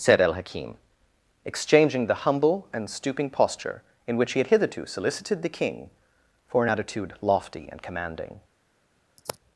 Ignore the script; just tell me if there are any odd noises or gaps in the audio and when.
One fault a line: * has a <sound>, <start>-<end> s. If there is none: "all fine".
* has a sigh, 9.2-9.4 s